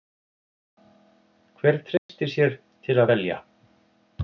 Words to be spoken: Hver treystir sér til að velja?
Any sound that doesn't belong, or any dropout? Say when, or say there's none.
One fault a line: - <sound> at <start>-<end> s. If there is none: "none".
- dropout at 2.0-2.1 s